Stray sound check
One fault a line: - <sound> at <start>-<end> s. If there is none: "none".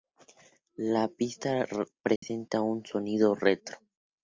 - dropout at 2.2-2.2 s